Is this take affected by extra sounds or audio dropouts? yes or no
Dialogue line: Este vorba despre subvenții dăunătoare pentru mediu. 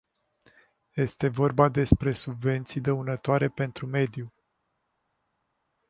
no